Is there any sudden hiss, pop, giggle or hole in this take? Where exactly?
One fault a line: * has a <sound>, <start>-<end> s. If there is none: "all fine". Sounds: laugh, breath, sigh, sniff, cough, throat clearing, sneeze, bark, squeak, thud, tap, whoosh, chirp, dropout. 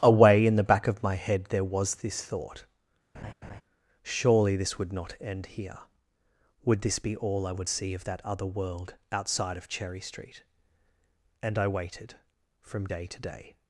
* has a laugh, 3.1-3.6 s